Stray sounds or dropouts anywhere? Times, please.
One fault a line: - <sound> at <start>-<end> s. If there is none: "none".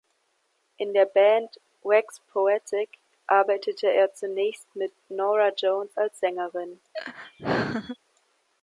- laugh at 6.9-8.0 s